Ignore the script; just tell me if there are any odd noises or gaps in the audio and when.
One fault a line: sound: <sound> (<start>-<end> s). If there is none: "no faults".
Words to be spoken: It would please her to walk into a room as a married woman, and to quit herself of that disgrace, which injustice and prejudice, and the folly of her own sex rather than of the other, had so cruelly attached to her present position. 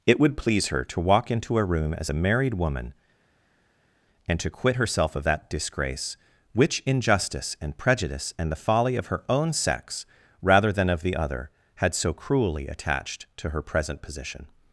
no faults